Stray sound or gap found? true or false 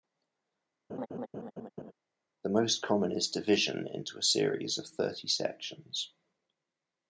true